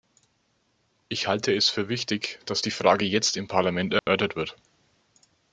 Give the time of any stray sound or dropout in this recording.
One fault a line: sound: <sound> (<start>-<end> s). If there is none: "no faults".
sound: dropout (4.0-4.1 s)